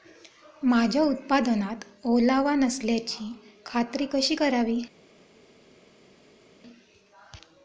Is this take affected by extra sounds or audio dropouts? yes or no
no